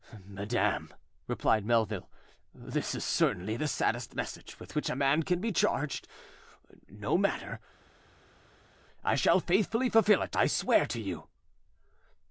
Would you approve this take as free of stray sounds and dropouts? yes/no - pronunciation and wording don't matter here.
yes